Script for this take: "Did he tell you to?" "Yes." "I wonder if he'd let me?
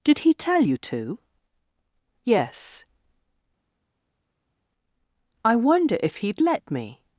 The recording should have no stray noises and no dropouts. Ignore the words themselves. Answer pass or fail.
pass